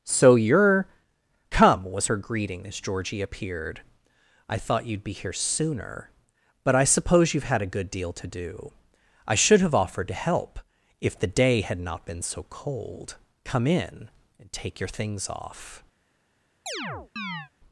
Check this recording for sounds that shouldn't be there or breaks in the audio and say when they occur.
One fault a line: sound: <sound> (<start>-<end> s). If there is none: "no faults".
sound: chirp (16.7-17.5 s)